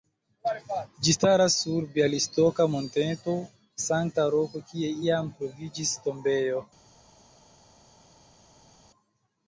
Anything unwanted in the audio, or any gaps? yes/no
no